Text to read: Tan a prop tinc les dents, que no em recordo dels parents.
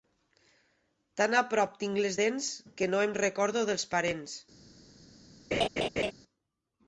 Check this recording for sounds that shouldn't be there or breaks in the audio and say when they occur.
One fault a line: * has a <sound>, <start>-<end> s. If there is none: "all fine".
* has a laugh, 5.5-6.1 s